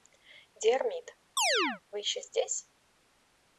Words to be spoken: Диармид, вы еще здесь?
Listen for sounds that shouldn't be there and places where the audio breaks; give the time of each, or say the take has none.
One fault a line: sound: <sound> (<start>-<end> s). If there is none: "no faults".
sound: chirp (1.4-1.8 s)